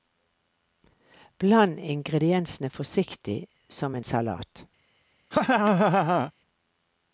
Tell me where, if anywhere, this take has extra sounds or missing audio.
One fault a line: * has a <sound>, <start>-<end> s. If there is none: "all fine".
* has a laugh, 5.3-6.3 s